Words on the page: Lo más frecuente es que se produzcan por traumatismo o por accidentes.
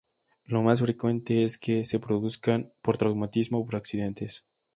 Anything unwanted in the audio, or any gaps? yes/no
no